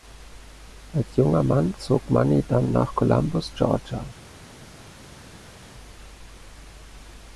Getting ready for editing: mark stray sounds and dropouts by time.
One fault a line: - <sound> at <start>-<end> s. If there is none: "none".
none